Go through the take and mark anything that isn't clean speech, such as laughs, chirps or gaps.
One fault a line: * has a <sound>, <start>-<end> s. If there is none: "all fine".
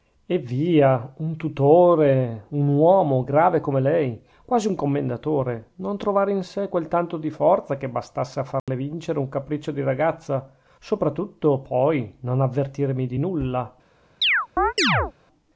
* has a dropout, 8.6-8.7 s
* has a chirp, 14.2-15.1 s